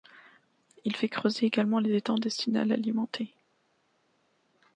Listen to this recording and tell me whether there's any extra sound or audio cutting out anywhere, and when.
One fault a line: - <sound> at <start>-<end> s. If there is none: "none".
none